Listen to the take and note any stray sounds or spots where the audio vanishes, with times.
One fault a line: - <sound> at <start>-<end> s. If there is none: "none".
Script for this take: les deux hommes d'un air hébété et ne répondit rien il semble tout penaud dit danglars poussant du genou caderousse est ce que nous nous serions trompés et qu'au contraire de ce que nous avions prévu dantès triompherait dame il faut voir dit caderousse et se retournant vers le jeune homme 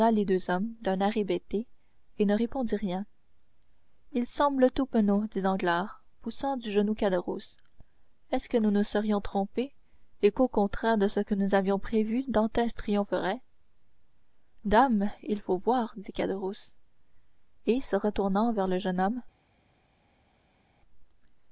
none